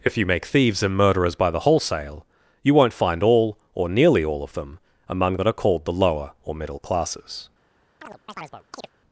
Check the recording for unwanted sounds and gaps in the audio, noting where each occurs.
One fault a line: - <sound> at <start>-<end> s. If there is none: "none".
- chirp at 8.0-8.9 s